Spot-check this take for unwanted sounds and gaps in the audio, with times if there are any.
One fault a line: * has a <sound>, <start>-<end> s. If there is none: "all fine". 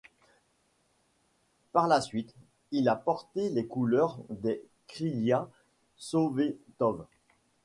all fine